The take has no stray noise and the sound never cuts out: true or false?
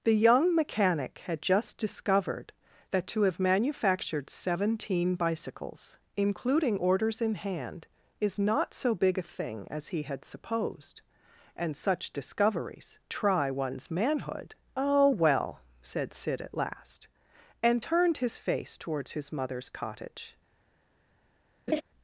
false